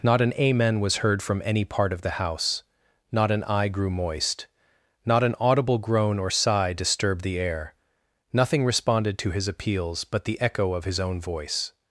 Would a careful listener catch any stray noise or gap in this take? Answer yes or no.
no